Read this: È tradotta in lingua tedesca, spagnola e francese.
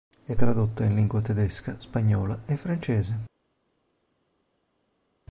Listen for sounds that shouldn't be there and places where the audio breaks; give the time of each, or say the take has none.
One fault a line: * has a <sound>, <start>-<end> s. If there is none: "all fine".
all fine